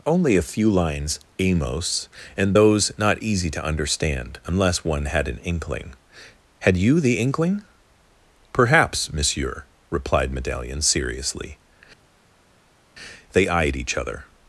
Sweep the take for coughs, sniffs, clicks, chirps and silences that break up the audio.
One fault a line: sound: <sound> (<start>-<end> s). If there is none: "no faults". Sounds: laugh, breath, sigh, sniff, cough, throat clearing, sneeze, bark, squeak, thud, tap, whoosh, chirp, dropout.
no faults